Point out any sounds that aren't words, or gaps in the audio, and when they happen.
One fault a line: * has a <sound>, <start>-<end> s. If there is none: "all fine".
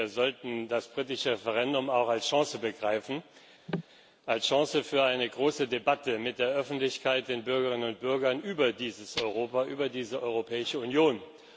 * has a cough, 3.7-3.8 s